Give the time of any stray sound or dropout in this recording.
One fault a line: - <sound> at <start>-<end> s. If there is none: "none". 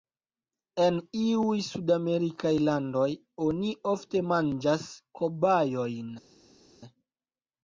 none